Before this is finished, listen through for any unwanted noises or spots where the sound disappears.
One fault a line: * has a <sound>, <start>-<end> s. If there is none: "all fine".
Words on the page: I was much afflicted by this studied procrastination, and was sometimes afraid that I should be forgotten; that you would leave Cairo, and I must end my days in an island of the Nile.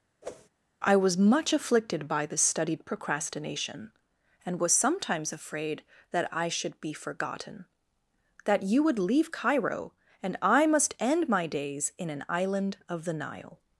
* has a whoosh, 0.2-0.5 s